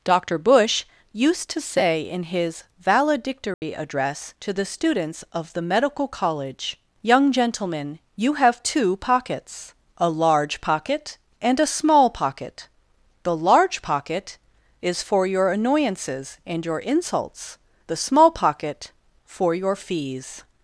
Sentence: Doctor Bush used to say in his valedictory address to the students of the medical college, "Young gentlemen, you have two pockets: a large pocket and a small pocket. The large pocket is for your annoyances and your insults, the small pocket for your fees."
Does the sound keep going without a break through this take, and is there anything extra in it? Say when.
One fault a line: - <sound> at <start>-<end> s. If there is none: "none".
- dropout at 3.5-3.6 s